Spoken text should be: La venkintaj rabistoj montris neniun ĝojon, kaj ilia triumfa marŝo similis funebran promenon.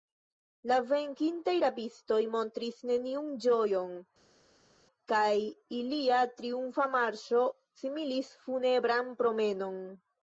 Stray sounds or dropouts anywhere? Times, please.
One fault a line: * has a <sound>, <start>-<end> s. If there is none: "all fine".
all fine